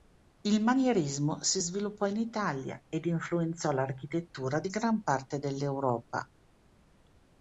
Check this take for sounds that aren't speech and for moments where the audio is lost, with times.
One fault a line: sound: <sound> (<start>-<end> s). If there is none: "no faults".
no faults